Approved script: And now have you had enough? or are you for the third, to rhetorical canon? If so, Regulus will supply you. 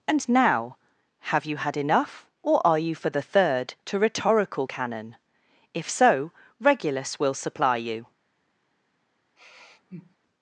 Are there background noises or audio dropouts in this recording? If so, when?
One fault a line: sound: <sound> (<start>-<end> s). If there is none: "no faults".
sound: sigh (9.4-10.2 s)